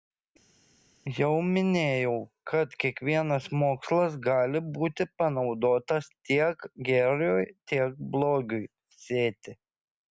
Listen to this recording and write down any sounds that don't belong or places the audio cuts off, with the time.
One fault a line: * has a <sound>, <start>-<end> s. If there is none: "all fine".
all fine